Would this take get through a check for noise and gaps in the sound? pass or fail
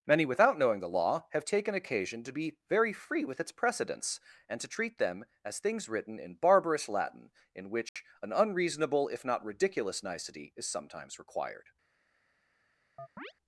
fail